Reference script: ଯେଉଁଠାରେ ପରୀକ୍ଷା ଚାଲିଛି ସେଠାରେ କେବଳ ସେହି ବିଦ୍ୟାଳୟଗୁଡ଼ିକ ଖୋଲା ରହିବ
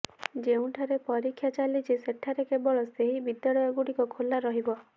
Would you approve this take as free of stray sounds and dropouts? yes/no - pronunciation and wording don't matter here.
yes